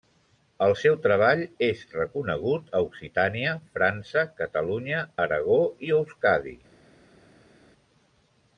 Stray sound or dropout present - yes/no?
no